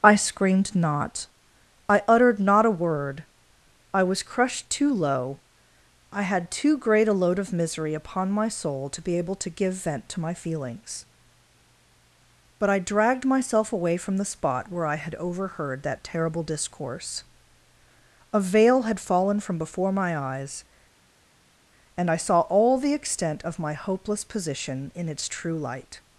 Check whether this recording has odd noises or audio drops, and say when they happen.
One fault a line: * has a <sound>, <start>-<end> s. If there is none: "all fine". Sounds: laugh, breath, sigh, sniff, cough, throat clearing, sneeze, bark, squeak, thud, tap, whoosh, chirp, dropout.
all fine